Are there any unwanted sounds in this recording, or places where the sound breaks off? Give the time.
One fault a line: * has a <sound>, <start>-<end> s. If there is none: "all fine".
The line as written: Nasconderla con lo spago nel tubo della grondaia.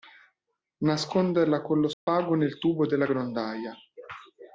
* has a dropout, 1.9-2.1 s